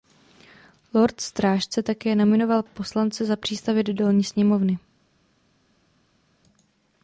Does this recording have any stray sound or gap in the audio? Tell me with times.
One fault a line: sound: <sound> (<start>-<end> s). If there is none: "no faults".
no faults